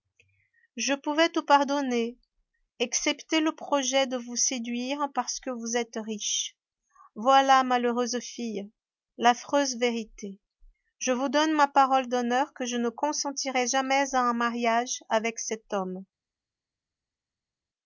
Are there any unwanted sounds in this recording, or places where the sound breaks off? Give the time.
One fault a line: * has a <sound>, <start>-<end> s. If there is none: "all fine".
all fine